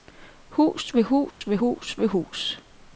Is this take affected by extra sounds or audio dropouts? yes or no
yes